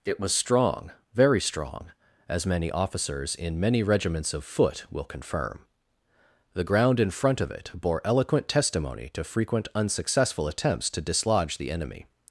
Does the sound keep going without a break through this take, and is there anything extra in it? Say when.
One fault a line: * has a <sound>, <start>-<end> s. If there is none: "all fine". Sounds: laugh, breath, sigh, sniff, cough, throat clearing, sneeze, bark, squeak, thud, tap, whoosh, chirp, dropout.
all fine